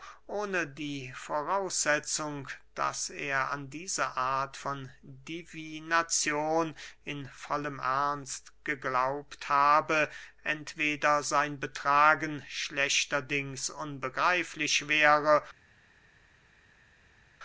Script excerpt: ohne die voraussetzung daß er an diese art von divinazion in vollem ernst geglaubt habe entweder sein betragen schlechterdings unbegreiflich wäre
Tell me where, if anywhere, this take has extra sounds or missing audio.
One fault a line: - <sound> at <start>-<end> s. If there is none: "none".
none